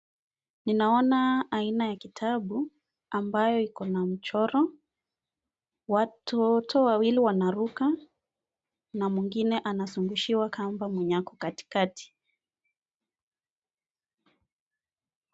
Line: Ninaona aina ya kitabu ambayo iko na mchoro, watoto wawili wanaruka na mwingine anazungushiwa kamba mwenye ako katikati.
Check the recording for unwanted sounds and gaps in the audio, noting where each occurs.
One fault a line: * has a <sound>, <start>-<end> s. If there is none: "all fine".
all fine